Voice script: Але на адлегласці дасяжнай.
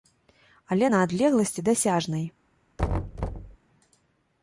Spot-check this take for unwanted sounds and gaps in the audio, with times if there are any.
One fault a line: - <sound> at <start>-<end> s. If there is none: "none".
- thud at 2.8-3.6 s